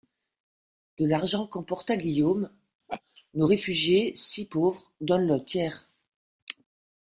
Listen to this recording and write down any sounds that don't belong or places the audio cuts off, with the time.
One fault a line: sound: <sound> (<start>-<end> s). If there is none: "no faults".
sound: laugh (2.9-3.0 s)